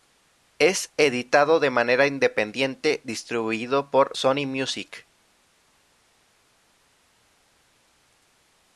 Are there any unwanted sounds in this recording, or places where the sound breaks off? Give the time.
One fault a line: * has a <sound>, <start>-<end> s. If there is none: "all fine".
all fine